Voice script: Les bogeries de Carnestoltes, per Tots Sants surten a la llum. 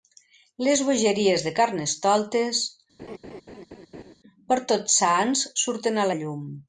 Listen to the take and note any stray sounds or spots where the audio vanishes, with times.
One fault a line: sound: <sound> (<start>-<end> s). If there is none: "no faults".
sound: laugh (3.0-4.1 s)